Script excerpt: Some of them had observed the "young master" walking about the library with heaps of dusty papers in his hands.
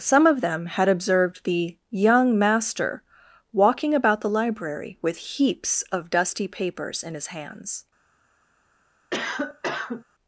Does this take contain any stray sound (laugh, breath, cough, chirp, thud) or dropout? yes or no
yes